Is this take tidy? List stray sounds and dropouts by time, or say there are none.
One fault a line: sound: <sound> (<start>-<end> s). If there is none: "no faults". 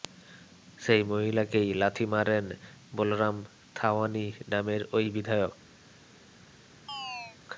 sound: chirp (6.9-7.4 s)